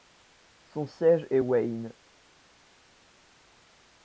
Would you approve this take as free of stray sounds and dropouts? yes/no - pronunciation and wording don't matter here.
yes